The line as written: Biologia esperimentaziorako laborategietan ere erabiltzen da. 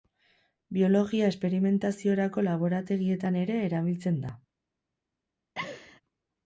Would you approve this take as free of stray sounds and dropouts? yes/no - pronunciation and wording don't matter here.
no